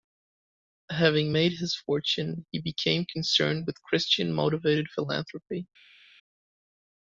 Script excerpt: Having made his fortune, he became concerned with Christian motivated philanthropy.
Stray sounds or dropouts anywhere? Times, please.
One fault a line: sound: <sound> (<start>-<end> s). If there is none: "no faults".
no faults